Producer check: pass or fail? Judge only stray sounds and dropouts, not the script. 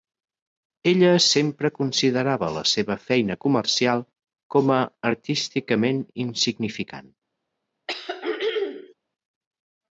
fail